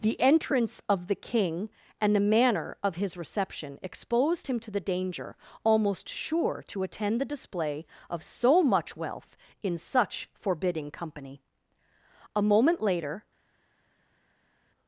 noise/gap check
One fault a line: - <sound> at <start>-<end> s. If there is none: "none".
none